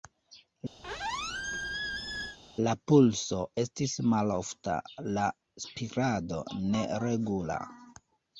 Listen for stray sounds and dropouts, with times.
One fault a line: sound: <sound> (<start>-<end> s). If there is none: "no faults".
sound: squeak (0.8-2.4 s)